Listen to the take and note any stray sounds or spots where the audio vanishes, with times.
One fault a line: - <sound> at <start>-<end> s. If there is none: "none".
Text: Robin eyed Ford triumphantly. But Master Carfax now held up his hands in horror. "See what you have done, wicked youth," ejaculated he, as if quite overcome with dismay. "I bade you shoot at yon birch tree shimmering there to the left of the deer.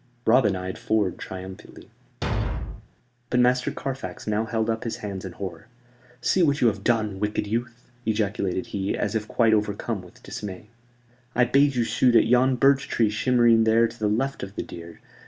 - thud at 2.2-2.9 s